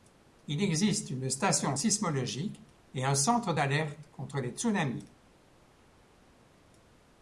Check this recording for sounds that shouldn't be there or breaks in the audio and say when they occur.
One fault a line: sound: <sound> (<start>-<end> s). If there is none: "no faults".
no faults